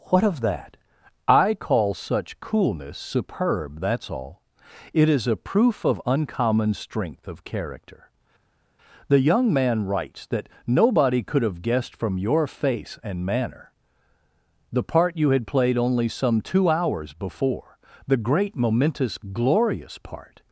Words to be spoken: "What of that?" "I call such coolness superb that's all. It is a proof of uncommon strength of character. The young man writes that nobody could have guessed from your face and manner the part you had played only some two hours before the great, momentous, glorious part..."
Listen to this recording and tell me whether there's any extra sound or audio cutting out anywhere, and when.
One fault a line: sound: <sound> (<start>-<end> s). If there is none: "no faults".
no faults